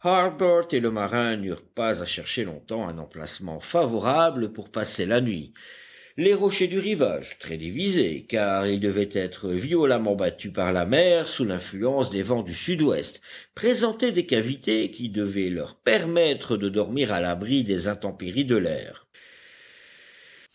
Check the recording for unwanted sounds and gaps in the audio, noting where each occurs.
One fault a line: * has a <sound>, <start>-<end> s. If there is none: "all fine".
all fine